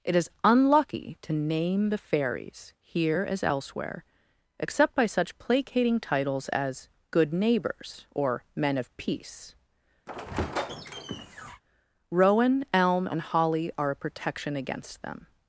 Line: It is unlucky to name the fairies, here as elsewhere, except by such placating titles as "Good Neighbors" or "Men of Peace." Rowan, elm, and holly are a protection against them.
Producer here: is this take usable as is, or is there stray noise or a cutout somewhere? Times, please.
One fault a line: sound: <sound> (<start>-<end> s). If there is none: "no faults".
sound: squeak (10.1-11.6 s)